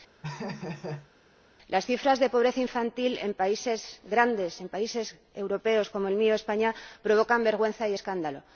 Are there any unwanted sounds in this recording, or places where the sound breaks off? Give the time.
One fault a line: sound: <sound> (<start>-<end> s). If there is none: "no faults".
sound: laugh (0.2-1.1 s)